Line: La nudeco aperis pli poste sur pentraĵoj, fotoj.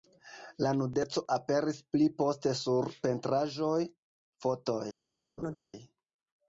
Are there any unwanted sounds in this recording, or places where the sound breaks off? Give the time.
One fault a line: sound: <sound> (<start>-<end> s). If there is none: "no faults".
sound: laugh (5.4-5.6 s)